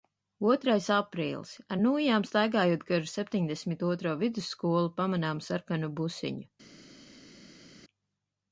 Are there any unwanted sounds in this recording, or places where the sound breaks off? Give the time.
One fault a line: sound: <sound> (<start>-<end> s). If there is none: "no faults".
no faults